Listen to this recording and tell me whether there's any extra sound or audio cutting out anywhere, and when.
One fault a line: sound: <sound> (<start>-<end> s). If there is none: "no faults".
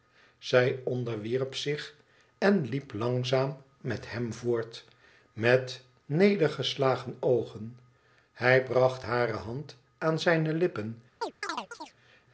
sound: chirp (11.2-12.0 s)